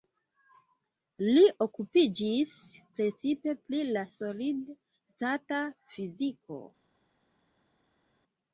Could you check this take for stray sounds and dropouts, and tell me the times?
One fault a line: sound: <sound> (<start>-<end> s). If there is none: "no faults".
no faults